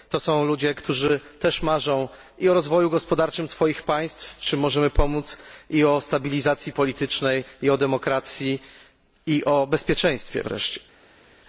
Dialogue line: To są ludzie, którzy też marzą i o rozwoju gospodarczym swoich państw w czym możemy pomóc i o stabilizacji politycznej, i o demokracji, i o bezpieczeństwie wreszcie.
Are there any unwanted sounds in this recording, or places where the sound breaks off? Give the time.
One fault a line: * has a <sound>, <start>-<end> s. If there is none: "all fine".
all fine